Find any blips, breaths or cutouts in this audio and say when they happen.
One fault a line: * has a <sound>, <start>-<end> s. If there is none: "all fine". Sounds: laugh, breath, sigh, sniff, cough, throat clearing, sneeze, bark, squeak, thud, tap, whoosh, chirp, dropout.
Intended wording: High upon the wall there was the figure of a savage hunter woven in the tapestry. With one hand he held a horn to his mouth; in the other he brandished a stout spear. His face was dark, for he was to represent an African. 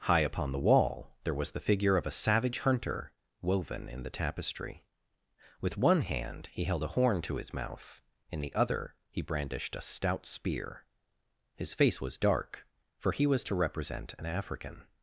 all fine